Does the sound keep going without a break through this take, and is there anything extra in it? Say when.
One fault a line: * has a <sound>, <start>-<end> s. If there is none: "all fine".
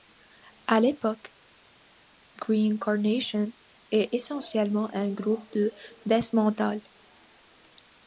all fine